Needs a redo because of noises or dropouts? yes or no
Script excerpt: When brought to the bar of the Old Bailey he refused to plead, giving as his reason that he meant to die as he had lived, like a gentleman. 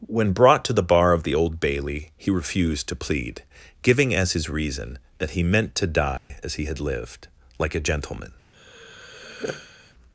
yes